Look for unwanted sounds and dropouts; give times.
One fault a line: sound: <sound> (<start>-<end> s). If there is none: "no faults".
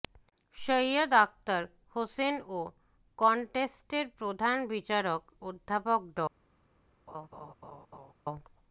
sound: laugh (7.1-8.1 s)